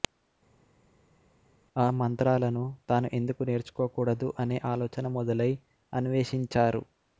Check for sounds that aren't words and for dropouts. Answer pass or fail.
pass